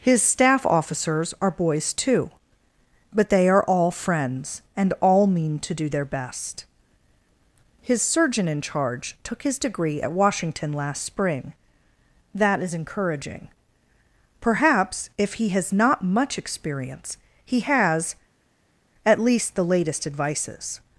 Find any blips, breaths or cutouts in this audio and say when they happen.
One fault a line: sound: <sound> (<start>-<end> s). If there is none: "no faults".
no faults